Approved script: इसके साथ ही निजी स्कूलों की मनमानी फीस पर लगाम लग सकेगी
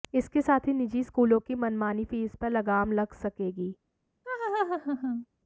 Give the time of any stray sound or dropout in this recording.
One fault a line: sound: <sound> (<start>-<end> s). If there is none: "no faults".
sound: laugh (4.2-5.3 s)